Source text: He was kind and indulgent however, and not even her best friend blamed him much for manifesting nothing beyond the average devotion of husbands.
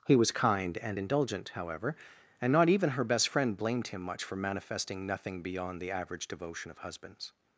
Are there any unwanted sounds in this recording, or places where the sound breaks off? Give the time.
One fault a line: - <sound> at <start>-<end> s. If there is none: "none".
none